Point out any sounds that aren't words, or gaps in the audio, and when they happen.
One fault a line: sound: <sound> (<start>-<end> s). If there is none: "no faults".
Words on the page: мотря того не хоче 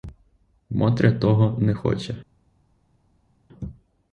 no faults